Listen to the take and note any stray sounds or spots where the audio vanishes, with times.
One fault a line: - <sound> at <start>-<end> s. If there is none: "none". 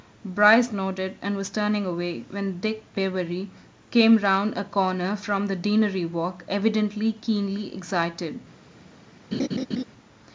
- laugh at 9.3-9.8 s